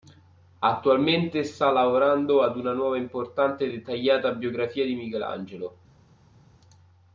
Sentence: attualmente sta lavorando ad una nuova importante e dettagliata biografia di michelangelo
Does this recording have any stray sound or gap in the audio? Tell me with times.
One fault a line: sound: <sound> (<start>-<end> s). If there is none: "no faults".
no faults